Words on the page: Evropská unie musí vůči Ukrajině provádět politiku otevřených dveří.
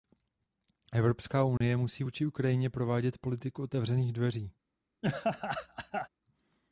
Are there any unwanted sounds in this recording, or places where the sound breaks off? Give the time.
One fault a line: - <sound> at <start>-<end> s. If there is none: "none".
- dropout at 1.6-1.6 s
- laugh at 5.0-6.1 s